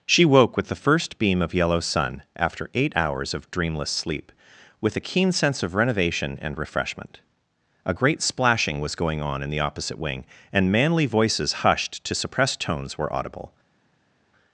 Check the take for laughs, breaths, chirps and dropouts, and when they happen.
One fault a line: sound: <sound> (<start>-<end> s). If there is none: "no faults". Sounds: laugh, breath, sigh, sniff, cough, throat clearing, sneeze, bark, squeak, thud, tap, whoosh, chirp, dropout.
no faults